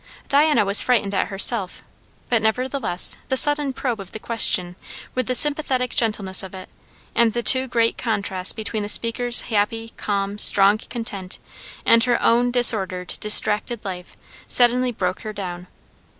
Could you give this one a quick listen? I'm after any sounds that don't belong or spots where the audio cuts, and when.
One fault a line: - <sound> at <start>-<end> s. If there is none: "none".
none